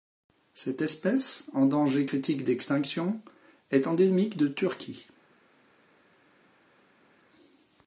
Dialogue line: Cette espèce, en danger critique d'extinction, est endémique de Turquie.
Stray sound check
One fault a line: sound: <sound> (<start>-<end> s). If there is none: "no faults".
no faults